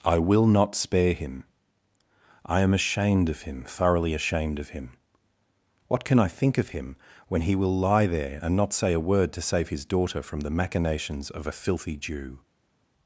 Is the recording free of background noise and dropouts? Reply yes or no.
yes